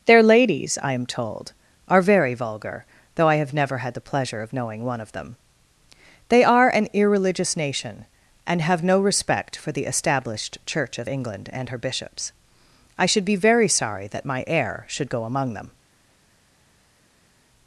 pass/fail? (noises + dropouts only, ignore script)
pass